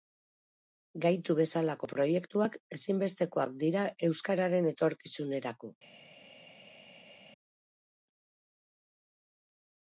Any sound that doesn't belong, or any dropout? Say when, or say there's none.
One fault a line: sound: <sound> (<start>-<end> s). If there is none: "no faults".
no faults